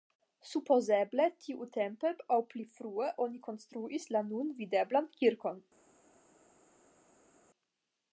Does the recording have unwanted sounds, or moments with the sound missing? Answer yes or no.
no